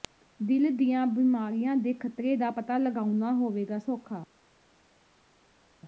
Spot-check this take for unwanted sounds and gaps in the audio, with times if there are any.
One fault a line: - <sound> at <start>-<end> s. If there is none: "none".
none